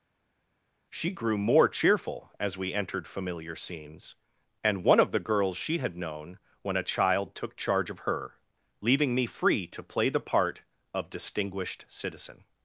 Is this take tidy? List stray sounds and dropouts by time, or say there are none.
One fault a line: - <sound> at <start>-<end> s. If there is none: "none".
none